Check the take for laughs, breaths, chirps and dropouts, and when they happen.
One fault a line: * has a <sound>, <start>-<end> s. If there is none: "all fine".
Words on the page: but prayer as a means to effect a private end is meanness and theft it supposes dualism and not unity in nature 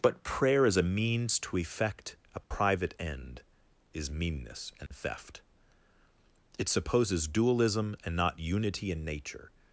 * has a dropout, 2.4-2.5 s
* has a dropout, 4.9-4.9 s